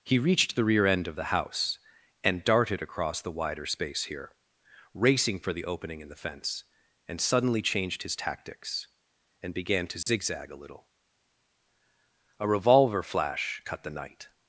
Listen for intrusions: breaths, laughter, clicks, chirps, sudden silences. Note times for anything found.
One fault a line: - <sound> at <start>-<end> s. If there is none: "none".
- dropout at 10.0-10.1 s